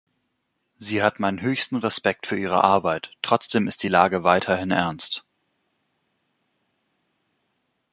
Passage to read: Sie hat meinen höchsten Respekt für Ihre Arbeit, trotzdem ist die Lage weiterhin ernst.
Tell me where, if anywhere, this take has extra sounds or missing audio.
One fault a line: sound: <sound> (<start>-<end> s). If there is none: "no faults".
no faults